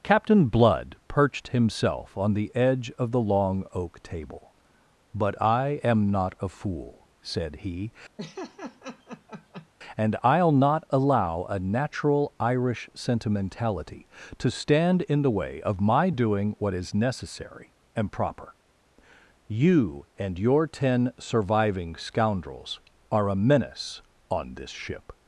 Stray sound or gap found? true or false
true